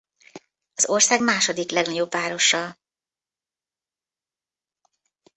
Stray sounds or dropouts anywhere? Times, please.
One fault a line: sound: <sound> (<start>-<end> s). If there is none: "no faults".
no faults